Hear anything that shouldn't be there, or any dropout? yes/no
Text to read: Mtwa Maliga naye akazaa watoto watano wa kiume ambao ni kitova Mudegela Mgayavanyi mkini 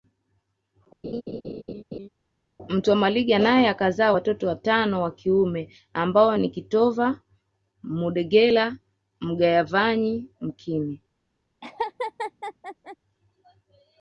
yes